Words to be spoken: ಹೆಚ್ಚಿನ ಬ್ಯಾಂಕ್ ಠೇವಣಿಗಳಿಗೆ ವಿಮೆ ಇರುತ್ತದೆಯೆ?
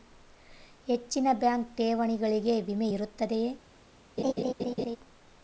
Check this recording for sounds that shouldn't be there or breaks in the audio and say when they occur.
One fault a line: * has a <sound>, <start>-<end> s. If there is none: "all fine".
* has a laugh, 4.2-5.0 s